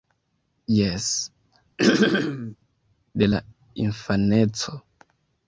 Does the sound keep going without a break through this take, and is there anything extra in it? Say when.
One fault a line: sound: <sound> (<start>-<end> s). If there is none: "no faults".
sound: throat clearing (1.8-2.6 s)